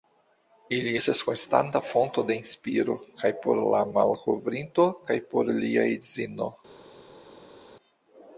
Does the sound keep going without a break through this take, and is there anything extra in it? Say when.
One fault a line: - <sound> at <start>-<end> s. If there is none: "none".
none